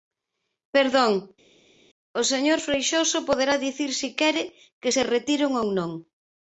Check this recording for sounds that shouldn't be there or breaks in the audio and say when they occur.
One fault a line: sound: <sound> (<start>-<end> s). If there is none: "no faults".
no faults